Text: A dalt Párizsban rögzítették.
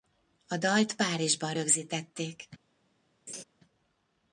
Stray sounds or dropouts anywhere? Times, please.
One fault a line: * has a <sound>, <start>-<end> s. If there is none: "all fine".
* has a laugh, 3.3-3.4 s